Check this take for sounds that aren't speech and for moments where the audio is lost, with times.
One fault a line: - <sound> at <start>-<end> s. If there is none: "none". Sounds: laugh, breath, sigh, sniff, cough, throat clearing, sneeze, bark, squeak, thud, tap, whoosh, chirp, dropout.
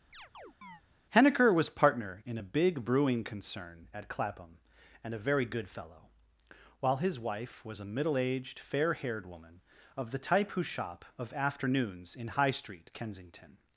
- chirp at 0.1-0.8 s